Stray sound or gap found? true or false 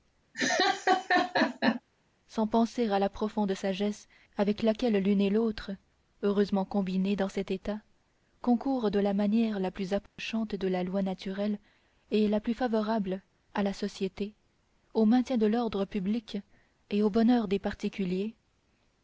true